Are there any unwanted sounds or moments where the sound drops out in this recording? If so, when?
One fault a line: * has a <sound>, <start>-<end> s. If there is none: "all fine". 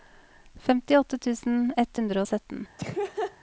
* has a laugh, 2.8-3.4 s